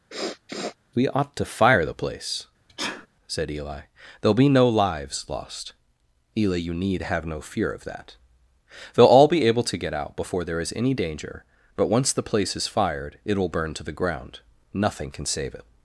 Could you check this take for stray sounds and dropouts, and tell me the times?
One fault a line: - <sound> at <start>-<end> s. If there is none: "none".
- sniff at 0.1-0.8 s
- sneeze at 2.7-3.1 s